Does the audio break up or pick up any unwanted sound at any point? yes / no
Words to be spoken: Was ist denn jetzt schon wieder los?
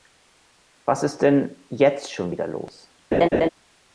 yes